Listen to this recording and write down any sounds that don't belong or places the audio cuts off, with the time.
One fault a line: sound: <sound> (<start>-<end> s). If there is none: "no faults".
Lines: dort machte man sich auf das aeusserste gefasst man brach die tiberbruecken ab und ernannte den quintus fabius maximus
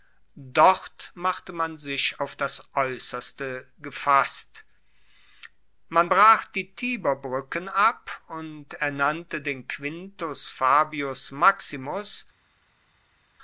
no faults